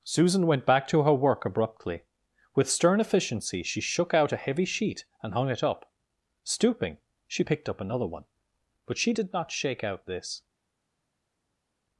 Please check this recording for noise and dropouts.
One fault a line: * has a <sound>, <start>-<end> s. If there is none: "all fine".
all fine